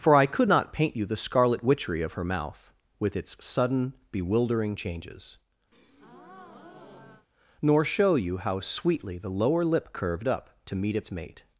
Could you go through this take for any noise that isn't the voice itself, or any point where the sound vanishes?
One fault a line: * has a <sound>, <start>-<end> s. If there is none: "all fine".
* has a breath, 5.7-7.3 s